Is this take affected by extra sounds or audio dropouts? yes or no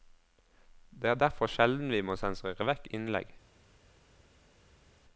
no